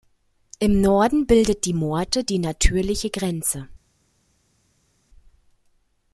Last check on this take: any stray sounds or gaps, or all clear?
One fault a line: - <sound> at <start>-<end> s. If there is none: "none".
none